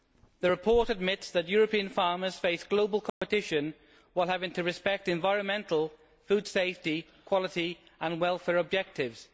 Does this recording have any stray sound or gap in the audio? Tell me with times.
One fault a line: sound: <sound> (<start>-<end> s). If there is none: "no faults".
sound: dropout (3.1-3.2 s)